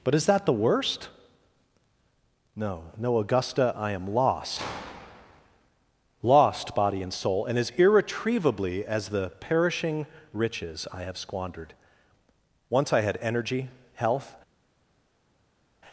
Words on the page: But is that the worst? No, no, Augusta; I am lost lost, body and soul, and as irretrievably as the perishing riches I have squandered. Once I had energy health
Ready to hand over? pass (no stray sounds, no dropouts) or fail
pass